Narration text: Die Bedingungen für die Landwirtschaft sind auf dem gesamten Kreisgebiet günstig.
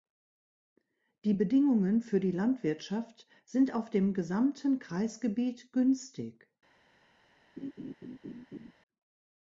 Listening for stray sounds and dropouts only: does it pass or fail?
fail